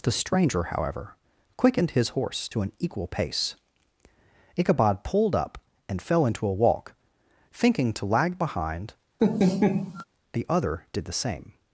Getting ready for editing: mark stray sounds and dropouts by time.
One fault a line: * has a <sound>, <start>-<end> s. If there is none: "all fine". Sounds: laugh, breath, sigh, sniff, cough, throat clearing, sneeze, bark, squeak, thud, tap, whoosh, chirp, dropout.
* has a laugh, 9.2-10.0 s